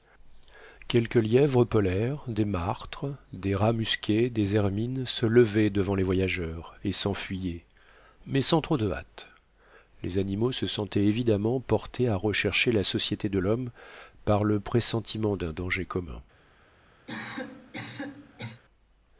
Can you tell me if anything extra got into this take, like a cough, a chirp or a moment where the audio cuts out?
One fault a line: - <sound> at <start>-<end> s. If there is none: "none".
- cough at 17.1-18.6 s